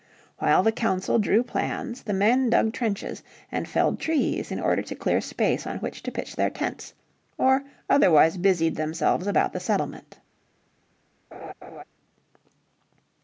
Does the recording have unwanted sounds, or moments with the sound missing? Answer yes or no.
yes